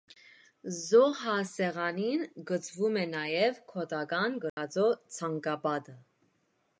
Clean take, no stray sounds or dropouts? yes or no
no